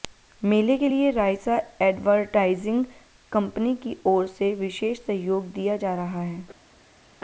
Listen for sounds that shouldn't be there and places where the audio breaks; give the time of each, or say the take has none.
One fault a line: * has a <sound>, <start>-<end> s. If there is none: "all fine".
all fine